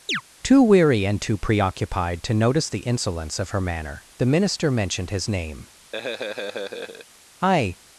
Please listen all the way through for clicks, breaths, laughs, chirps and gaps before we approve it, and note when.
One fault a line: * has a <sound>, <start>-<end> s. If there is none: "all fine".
* has a chirp, 0.1-0.2 s
* has a laugh, 5.9-7.1 s